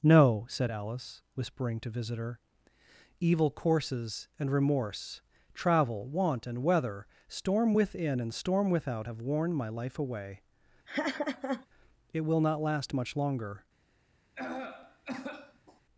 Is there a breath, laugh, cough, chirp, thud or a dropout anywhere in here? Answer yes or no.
yes